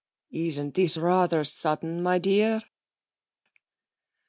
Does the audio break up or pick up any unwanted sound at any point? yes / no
no